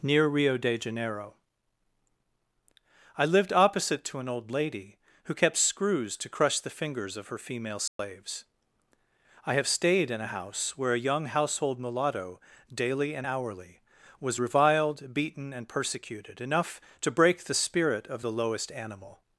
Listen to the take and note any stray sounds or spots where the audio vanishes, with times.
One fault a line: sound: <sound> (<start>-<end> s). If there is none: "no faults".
sound: dropout (7.9-8.0 s)